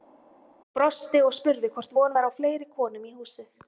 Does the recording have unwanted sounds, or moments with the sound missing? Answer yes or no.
no